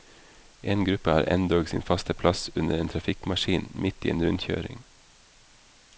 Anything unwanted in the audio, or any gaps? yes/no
no